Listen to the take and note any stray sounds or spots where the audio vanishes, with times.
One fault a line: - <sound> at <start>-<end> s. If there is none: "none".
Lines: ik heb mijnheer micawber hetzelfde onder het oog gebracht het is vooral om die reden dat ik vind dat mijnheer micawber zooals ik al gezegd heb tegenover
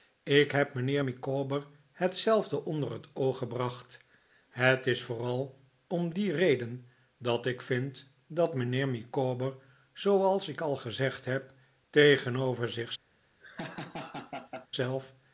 - laugh at 13.4-14.7 s